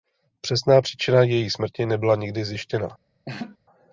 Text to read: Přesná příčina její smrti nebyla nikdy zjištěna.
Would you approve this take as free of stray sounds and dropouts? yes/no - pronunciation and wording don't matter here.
no